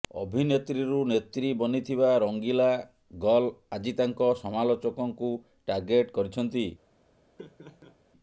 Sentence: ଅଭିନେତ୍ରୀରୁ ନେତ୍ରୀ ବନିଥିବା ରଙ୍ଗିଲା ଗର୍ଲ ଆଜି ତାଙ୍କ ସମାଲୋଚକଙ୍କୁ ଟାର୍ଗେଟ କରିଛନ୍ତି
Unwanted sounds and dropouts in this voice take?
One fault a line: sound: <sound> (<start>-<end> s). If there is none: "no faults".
sound: laugh (7.4-8.0 s)